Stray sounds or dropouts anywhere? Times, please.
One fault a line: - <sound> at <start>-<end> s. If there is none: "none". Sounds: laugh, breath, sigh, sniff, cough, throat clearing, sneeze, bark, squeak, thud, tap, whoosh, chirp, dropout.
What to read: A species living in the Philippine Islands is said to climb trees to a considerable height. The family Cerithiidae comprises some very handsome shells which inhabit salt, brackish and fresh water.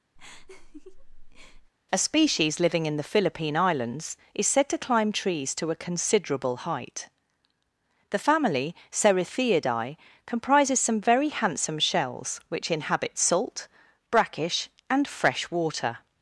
- laugh at 0.2-1.7 s